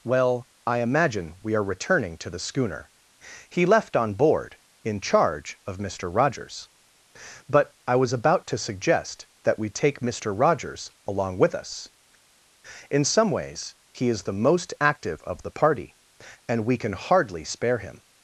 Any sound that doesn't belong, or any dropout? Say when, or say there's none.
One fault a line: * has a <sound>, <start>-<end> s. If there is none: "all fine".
all fine